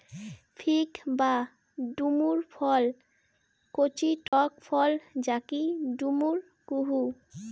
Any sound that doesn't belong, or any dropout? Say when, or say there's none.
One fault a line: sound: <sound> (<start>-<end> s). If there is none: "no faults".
sound: dropout (4.3-4.3 s)